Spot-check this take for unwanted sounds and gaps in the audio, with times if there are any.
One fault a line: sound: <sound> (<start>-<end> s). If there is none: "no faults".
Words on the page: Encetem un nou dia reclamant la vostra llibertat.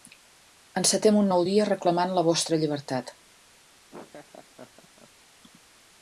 sound: laugh (3.9-5.1 s)